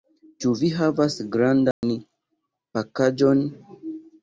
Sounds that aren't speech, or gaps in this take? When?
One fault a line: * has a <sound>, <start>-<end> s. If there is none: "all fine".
* has a dropout, 1.7-1.8 s